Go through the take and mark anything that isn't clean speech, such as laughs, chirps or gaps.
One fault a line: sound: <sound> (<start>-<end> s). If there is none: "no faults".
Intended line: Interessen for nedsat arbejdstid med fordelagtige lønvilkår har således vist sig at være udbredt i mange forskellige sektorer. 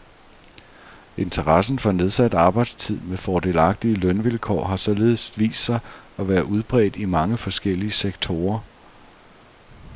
no faults